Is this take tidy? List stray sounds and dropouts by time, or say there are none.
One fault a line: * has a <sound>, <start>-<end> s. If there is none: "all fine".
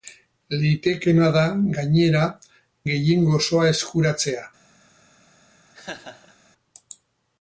* has a laugh, 5.7-6.3 s